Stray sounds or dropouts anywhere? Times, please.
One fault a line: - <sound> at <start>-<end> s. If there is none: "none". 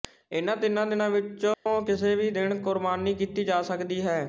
- dropout at 1.5-1.7 s